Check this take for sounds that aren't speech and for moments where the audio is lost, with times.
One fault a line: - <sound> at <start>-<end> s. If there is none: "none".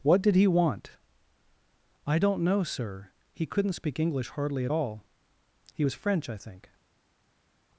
none